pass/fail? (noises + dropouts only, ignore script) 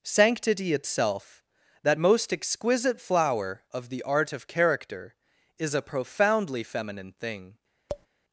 fail